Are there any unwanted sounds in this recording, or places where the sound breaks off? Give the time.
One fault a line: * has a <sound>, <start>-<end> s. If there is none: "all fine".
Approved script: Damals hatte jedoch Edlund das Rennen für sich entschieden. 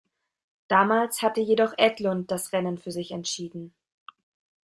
all fine